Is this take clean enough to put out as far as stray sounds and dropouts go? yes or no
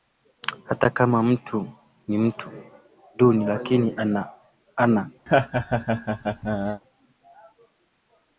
no